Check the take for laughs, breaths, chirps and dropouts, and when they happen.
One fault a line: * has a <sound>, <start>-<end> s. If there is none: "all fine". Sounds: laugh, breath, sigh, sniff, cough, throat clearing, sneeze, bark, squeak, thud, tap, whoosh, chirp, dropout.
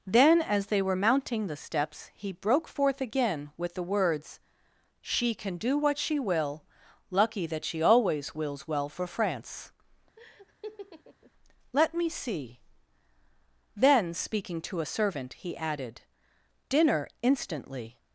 * has a laugh, 10.2-11.3 s